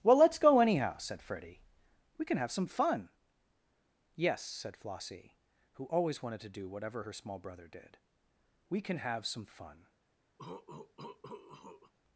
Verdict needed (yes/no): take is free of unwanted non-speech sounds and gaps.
no